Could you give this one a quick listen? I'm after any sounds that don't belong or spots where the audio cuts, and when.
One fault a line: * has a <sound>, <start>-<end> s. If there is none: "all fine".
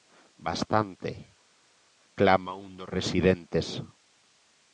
all fine